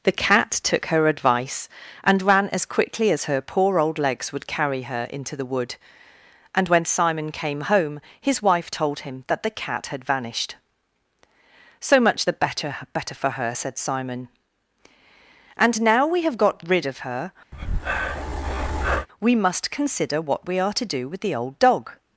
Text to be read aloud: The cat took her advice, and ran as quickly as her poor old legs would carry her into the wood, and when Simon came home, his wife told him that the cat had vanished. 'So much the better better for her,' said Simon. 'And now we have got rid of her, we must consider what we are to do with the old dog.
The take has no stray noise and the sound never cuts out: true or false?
false